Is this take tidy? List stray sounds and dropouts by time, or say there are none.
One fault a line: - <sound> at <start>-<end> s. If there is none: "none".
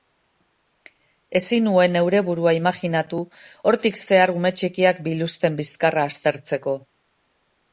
none